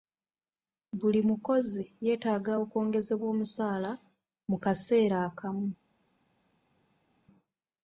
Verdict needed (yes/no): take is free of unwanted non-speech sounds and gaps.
yes